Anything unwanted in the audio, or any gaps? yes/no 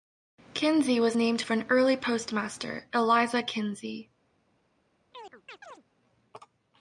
yes